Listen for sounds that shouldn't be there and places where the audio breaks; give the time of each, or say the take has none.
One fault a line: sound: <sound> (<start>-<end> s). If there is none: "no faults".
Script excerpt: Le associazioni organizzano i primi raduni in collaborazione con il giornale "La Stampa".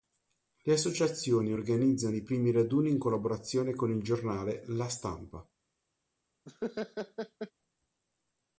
sound: laugh (6.5-7.5 s)